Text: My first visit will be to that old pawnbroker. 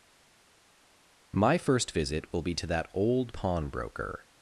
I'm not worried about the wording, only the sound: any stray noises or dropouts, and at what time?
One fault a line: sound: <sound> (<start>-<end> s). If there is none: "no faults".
no faults